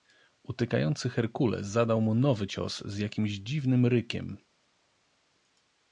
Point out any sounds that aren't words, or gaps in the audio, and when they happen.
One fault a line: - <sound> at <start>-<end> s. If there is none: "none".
none